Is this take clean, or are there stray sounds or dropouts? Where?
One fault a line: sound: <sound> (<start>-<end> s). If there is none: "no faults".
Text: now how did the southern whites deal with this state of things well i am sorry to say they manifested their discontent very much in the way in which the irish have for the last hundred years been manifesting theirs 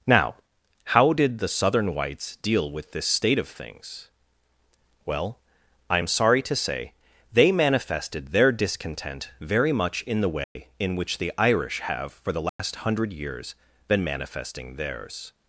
sound: dropout (10.4-10.6 s)
sound: dropout (12.5-12.6 s)